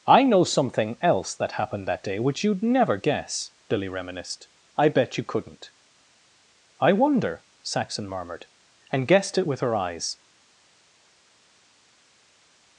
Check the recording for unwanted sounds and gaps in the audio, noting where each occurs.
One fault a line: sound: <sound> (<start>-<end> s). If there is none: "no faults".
no faults